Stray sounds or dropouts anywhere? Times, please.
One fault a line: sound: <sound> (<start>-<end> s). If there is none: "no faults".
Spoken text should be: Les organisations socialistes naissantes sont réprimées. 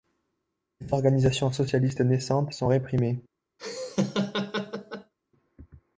sound: laugh (3.6-5.1 s)